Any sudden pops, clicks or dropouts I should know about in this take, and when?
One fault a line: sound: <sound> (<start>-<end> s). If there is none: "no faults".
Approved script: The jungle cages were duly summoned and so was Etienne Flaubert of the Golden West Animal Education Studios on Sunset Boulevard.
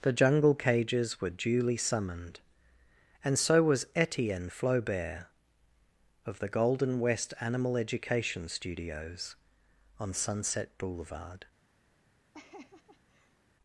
sound: laugh (12.3-13.4 s)